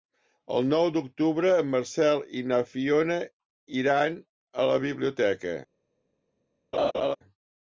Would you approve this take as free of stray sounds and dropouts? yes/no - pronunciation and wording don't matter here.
no